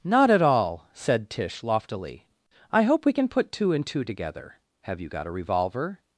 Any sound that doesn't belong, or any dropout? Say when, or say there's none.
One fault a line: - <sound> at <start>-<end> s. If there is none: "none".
none